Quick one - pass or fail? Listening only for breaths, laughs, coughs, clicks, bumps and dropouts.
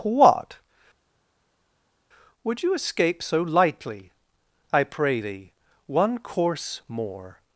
pass